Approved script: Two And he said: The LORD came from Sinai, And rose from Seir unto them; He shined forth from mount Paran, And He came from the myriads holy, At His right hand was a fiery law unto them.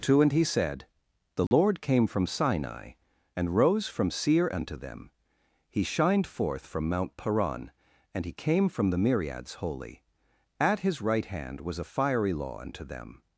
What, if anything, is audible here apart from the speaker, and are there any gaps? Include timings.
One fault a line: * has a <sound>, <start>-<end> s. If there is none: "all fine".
* has a dropout, 1.5-1.5 s